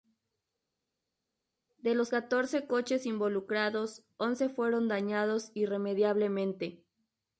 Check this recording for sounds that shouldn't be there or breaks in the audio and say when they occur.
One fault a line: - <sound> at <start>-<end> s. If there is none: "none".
none